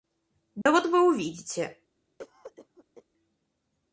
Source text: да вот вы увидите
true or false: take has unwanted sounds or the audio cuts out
true